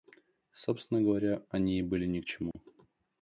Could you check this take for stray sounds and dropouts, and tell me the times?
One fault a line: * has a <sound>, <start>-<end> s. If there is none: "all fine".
* has a dropout, 2.5-2.5 s